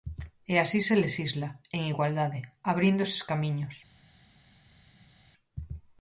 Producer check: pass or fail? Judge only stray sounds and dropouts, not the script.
pass